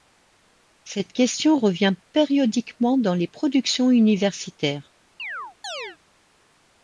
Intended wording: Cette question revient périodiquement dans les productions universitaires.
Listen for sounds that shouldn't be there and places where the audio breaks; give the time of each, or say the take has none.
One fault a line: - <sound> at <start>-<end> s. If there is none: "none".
- chirp at 5.2-6.0 s